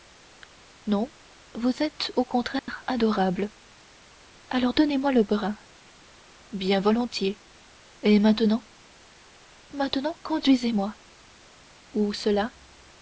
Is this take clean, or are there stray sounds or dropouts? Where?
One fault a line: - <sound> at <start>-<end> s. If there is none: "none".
- dropout at 2.6-2.7 s